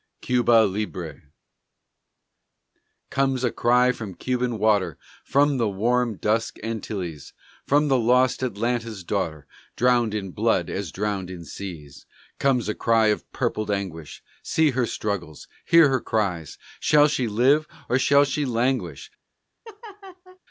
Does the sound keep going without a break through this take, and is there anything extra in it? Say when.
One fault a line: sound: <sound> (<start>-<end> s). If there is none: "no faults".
sound: laugh (19.6-20.4 s)